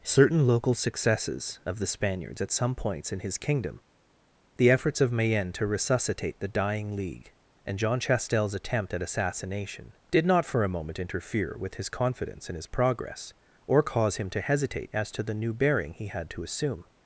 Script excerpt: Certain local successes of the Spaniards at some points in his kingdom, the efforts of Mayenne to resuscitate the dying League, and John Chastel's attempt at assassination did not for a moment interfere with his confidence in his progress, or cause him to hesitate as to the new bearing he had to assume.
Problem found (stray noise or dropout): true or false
false